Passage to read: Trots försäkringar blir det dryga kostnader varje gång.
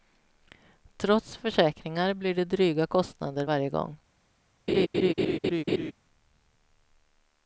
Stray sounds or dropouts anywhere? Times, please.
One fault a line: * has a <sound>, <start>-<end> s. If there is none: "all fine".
* has a laugh, 4.7-5.9 s